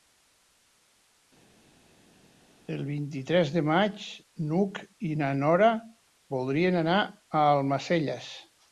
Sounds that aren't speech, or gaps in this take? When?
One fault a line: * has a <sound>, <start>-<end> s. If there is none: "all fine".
all fine